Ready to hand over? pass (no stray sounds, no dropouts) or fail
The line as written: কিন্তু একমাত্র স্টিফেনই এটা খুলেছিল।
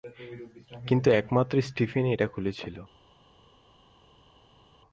pass